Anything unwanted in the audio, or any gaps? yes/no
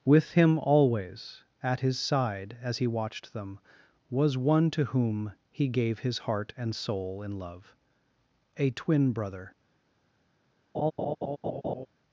yes